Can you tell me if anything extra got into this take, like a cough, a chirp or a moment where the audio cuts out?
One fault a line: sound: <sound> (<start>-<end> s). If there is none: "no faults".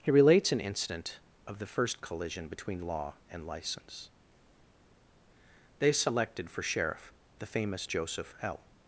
no faults